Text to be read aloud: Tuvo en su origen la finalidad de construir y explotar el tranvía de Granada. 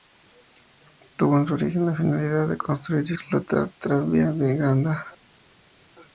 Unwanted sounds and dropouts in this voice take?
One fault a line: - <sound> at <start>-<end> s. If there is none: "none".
none